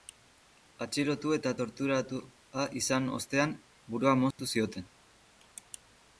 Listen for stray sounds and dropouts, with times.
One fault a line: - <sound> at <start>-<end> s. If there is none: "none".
- dropout at 4.3-4.4 s